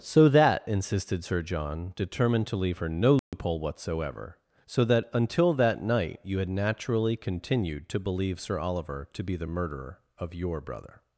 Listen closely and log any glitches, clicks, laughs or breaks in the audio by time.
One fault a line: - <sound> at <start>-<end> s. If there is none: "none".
- dropout at 3.2-3.3 s